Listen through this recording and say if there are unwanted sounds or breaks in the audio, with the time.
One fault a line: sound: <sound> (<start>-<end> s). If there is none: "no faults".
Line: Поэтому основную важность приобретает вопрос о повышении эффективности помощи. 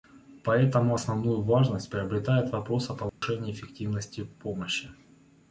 sound: dropout (3.1-3.2 s)